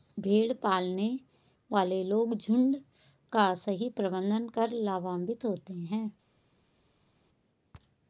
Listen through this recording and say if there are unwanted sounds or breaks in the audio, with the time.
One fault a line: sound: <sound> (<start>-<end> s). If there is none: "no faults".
no faults